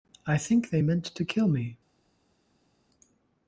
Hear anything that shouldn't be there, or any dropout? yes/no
no